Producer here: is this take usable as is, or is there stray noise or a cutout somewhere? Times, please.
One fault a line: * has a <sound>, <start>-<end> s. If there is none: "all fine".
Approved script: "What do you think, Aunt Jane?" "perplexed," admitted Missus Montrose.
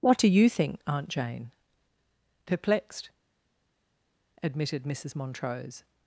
all fine